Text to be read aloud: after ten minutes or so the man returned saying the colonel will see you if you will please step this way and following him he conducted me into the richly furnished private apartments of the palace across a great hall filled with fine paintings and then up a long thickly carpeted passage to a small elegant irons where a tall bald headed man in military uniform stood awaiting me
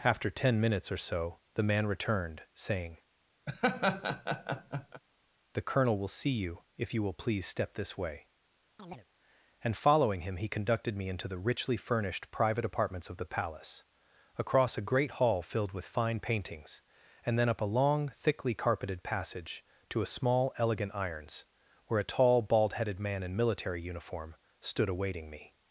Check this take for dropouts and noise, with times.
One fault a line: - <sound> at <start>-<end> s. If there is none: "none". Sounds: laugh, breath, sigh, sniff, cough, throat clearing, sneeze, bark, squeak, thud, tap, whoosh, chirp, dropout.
- laugh at 3.5-5.0 s
- chirp at 8.8-9.1 s